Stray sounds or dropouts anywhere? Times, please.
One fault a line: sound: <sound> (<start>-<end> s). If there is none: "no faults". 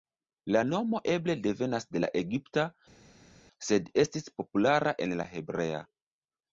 no faults